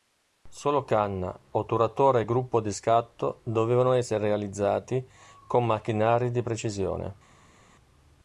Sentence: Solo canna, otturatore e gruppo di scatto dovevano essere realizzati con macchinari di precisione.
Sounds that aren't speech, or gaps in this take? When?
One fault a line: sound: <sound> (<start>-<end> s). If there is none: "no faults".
no faults